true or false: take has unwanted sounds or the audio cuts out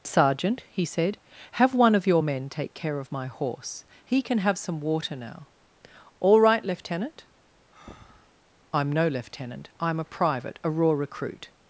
true